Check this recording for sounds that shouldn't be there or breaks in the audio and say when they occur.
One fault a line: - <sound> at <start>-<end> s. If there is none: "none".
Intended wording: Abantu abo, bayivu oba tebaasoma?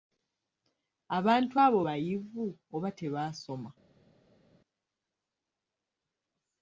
none